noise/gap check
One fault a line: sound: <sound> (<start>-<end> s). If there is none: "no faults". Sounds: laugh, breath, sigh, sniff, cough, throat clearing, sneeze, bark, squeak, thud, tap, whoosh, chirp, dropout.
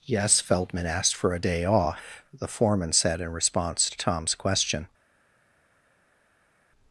no faults